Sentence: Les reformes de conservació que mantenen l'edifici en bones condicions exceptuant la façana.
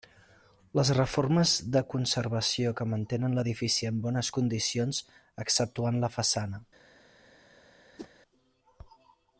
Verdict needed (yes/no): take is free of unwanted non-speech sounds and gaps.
no